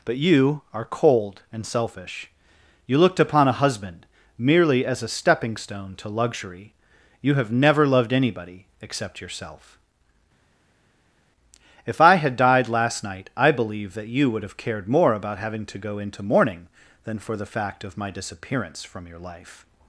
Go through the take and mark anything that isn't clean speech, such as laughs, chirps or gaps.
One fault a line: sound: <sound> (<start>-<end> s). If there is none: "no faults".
no faults